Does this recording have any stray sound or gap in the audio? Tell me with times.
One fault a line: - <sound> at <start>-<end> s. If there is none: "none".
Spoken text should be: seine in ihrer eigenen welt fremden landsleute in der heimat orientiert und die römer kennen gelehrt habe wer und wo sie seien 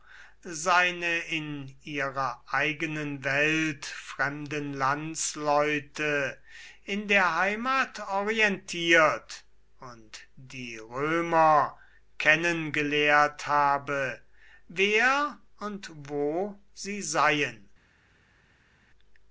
none